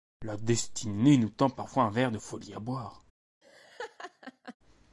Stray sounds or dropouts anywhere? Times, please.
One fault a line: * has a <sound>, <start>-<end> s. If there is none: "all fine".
* has a laugh, 3.4-4.6 s